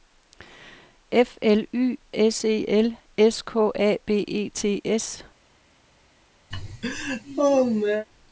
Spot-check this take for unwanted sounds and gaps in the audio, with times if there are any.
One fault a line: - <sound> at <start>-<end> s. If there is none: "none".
- laugh at 6.5-8.1 s